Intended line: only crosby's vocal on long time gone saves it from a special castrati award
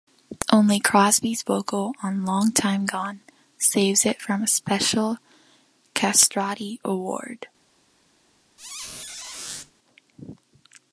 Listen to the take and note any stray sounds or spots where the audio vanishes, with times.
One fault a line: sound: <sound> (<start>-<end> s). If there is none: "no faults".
sound: squeak (8.6-9.7 s)